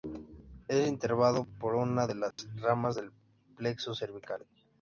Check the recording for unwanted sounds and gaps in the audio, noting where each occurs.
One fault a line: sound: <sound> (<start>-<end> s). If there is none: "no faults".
sound: dropout (2.3-2.4 s)